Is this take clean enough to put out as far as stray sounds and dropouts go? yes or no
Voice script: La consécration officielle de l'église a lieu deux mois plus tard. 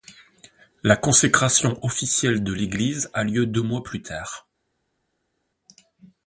yes